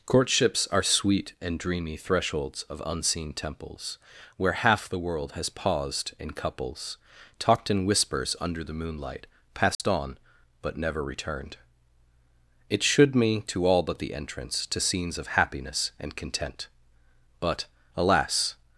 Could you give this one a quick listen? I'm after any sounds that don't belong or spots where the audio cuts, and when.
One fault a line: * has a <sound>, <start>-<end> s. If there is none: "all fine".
* has a dropout, 9.7-9.8 s